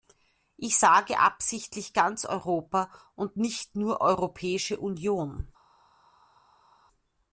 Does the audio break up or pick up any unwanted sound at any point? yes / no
no